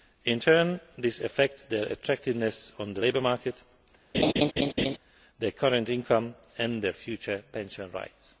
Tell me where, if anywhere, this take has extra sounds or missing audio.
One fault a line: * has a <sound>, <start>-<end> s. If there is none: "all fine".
* has a laugh, 4.1-5.0 s